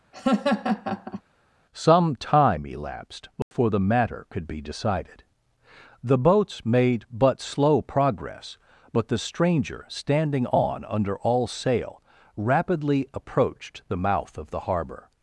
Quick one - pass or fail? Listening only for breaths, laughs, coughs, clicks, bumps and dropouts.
fail